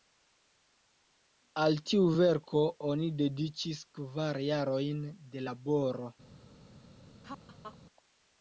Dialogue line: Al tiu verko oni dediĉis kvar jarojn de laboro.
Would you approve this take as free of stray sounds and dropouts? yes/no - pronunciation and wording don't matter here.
no